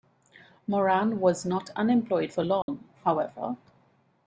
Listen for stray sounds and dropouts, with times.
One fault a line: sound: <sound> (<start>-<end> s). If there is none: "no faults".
sound: dropout (2.6-2.7 s)